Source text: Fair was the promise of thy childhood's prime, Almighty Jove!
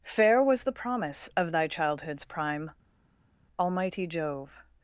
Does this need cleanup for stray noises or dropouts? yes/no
no